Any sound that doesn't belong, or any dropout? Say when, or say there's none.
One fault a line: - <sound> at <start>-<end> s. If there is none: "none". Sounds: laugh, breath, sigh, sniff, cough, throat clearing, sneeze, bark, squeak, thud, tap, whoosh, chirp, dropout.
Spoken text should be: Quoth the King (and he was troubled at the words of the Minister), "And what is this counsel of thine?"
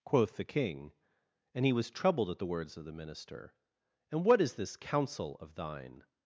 none